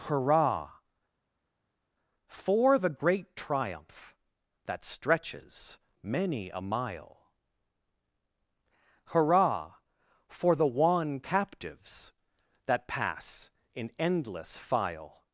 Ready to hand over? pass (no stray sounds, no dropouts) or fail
pass